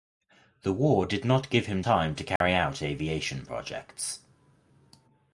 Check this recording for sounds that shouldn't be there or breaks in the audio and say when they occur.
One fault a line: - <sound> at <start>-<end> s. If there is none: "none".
- dropout at 2.4-2.4 s